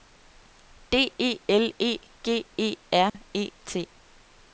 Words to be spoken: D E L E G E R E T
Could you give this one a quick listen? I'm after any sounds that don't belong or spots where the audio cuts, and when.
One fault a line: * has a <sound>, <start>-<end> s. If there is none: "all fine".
* has a dropout, 3.1-3.1 s